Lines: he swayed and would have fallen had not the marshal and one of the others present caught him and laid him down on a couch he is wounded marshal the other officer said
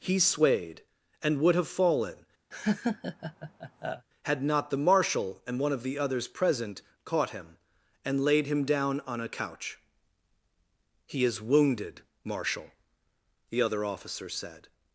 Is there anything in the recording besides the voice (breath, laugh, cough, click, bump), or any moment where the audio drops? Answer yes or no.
yes